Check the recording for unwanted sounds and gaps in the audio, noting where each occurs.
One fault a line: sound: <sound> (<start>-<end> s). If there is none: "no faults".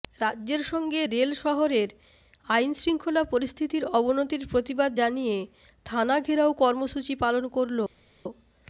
no faults